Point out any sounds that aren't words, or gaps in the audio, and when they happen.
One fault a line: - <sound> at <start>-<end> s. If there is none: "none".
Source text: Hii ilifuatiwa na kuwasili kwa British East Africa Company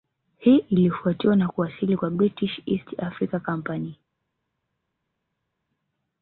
none